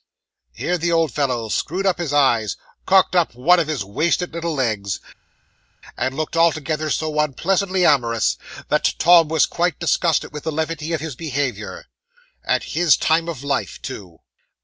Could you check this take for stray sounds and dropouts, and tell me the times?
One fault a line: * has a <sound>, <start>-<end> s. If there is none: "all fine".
all fine